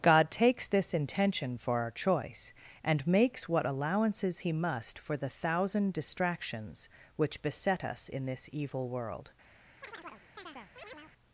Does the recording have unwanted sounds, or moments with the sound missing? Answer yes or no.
yes